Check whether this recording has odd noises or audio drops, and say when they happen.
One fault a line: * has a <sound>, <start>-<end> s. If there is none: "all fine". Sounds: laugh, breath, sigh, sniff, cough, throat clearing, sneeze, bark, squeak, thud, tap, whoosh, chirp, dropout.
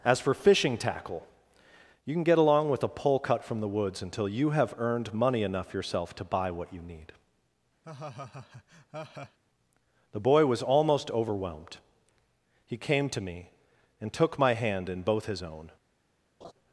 * has a laugh, 7.8-9.4 s
* has a laugh, 16.4-16.5 s